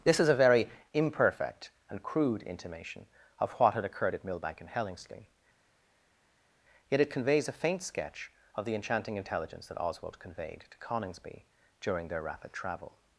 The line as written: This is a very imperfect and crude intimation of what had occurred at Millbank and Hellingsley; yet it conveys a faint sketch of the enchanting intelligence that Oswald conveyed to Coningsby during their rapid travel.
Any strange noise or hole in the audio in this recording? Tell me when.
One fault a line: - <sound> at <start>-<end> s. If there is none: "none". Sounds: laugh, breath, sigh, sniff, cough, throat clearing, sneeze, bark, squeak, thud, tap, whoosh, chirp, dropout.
none